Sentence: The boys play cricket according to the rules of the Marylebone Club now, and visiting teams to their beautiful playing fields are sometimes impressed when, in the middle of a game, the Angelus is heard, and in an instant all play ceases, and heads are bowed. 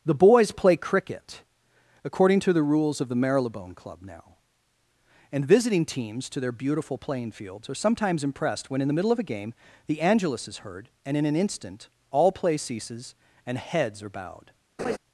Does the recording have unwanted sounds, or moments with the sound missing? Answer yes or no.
yes